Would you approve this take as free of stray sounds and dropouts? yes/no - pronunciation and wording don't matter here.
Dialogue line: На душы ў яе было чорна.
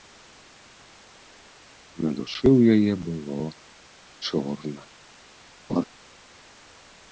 no